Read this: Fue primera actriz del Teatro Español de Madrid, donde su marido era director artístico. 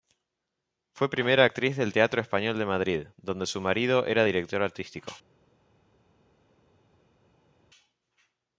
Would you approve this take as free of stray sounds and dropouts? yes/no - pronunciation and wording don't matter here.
yes